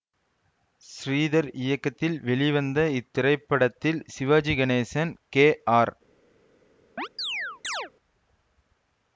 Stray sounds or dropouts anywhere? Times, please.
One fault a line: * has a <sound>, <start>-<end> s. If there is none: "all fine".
* has a chirp, 7.0-7.9 s